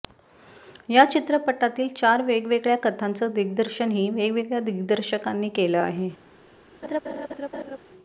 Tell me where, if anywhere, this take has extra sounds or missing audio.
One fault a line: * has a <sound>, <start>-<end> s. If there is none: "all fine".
* has a laugh, 6.8-7.8 s